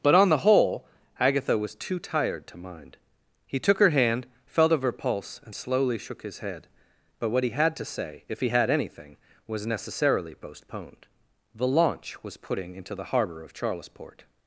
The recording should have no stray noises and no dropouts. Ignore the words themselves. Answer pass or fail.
pass